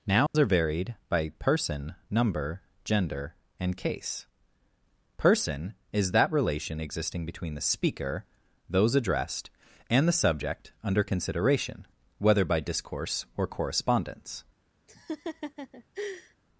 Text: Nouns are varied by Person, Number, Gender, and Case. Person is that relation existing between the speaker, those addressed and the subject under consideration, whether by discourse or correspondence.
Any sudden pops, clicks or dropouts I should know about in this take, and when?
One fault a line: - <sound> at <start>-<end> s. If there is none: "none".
- dropout at 0.3-0.3 s
- laugh at 14.9-16.4 s